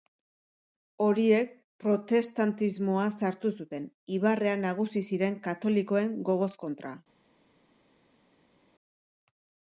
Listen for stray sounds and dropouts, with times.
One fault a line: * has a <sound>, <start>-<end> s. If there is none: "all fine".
all fine